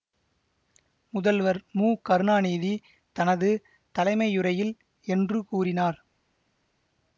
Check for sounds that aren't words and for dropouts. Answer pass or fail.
pass